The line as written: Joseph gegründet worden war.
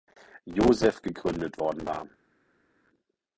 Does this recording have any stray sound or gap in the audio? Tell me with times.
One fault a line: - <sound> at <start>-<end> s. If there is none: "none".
none